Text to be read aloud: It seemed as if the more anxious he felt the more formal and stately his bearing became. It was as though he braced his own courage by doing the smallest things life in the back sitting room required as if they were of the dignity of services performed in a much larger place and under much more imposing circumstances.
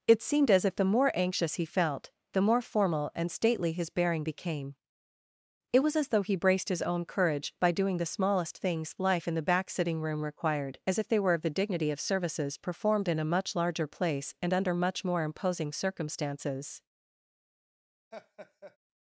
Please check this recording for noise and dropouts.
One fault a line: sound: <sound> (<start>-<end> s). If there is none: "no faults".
sound: laugh (18.1-18.8 s)